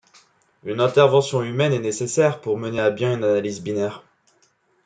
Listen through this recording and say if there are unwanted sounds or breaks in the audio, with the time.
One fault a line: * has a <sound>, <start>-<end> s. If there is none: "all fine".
all fine